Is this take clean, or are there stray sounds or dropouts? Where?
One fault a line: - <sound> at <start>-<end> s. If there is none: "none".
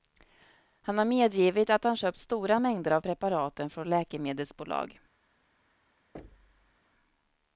- thud at 6.1-6.8 s